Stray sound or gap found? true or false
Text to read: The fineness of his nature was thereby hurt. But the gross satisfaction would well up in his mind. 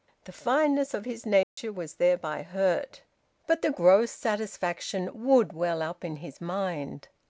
true